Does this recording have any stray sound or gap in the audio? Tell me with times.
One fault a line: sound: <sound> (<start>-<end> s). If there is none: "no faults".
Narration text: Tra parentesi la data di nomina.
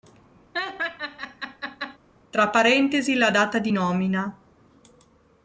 sound: laugh (0.5-2.0 s)